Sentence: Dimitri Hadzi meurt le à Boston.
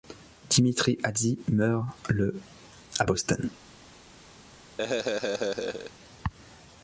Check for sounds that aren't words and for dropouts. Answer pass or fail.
fail